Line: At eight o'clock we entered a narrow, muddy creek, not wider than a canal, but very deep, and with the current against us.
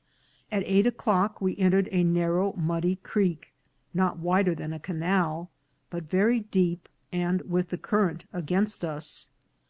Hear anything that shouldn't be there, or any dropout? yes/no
no